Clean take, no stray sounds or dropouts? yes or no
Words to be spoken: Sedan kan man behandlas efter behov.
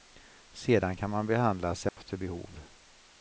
no